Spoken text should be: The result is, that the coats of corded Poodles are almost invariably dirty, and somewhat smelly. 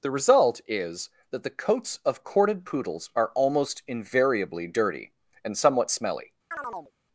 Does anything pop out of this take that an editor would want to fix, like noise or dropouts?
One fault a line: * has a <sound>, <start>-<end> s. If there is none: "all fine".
* has a chirp, 6.5-6.9 s